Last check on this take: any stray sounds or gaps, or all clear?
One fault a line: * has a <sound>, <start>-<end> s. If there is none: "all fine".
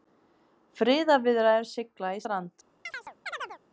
* has a chirp, 2.9-3.6 s